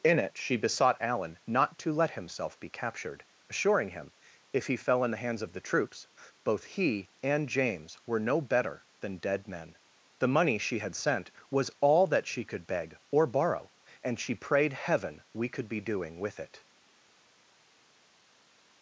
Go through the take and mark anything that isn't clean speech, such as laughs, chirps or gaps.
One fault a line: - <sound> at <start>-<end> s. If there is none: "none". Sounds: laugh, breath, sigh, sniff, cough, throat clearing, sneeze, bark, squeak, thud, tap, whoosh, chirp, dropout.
none